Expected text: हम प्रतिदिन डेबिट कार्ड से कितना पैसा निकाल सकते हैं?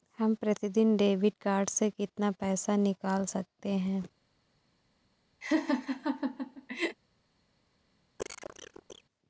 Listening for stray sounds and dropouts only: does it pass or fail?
fail